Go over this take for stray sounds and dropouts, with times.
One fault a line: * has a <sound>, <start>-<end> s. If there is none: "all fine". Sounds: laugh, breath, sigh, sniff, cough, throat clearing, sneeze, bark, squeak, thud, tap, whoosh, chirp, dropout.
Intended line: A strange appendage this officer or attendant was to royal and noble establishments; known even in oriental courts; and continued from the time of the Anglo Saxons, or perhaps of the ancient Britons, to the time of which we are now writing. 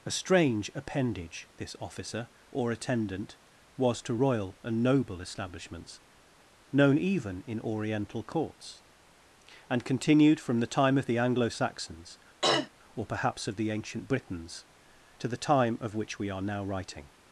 * has a throat clearing, 12.4-12.7 s